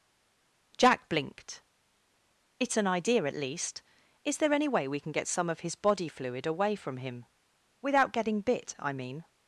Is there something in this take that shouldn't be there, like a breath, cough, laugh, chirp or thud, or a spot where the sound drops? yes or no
no